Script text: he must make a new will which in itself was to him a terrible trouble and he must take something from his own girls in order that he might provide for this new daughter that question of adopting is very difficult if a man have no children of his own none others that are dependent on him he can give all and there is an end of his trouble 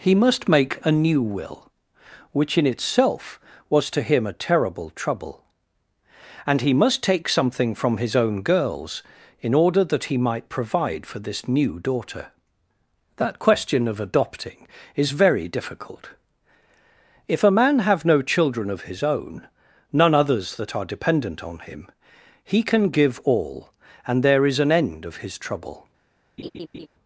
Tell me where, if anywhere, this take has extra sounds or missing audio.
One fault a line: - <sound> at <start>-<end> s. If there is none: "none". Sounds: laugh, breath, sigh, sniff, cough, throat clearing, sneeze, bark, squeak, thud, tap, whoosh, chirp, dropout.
- laugh at 26.4-26.9 s